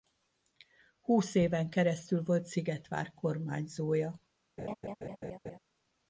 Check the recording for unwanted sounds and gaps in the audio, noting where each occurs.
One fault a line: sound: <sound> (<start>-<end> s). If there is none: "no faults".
sound: laugh (4.6-5.6 s)